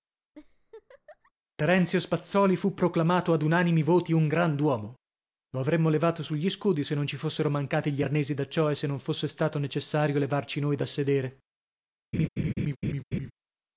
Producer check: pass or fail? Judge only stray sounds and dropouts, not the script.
fail